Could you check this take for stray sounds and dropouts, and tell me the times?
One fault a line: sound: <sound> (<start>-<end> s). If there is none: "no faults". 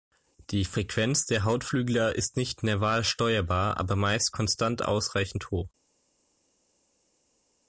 no faults